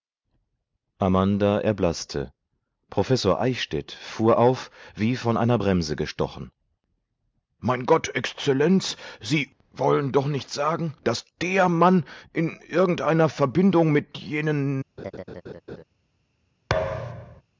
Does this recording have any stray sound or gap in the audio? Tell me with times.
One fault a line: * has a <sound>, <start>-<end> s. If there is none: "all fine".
* has a laugh, 15.0-15.8 s
* has a thud, 16.7-17.4 s